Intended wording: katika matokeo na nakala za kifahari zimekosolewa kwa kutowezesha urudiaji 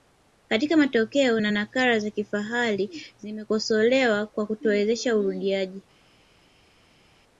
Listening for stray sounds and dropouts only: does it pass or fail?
pass